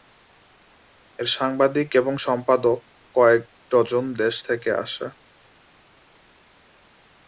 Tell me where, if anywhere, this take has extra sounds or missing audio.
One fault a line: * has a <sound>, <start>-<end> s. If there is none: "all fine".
all fine